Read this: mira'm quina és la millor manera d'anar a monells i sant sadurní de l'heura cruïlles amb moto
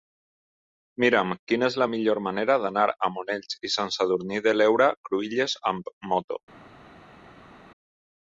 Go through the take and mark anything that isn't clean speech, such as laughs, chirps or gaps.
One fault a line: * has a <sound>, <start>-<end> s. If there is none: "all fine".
all fine